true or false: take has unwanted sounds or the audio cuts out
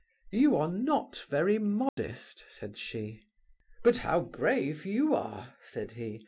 true